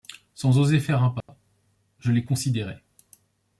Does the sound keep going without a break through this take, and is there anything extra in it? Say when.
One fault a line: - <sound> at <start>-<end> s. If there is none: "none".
- dropout at 1.2-1.3 s